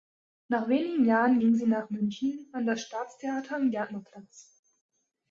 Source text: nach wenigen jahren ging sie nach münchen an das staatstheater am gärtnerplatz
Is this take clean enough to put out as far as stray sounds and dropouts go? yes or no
yes